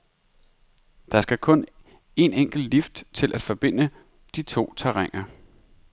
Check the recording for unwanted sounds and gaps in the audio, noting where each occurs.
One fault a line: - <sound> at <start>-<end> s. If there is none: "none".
none